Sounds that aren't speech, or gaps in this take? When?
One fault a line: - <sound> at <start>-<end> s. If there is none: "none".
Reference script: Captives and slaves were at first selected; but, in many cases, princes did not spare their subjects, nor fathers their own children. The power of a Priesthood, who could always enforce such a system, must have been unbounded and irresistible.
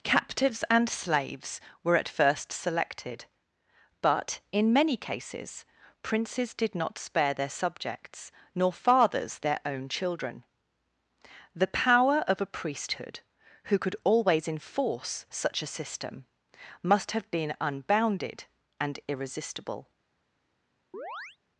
- chirp at 20.9-21.4 s